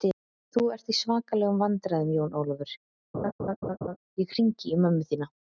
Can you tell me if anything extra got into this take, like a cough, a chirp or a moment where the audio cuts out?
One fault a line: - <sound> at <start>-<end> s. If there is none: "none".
- laugh at 3.1-4.0 s